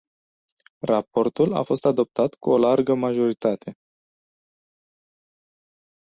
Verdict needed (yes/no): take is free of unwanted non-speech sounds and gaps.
yes